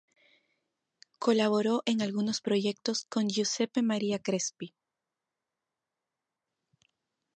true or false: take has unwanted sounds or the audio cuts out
false